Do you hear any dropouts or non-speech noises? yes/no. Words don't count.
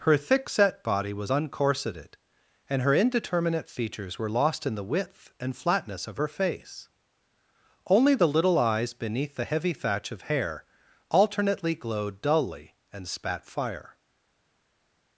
no